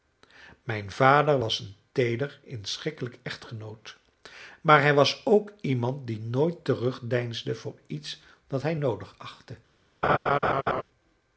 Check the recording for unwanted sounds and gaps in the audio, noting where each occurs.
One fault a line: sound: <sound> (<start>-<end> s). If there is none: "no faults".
sound: laugh (10.0-10.8 s)